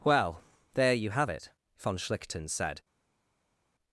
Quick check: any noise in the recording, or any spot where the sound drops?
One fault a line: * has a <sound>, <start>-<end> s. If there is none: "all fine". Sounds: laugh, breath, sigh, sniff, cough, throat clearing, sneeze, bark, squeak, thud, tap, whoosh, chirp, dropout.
all fine